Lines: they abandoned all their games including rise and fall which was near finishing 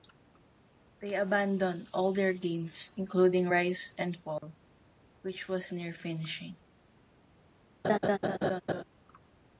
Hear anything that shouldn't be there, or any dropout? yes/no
yes